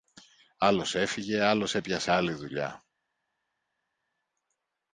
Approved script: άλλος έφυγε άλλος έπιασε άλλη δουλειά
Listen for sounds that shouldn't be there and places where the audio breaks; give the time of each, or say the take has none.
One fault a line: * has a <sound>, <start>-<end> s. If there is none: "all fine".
all fine